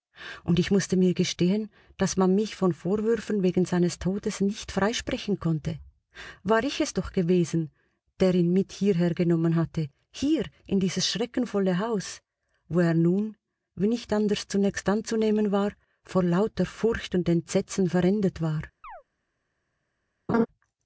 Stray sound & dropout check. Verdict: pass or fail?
fail